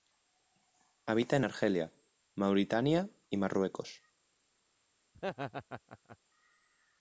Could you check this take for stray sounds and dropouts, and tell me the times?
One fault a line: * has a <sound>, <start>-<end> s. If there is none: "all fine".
* has a laugh, 5.1-6.2 s